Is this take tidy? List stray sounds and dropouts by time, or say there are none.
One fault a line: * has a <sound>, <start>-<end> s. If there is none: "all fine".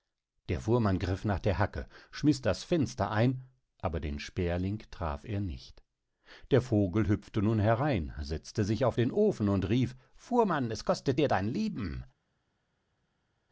all fine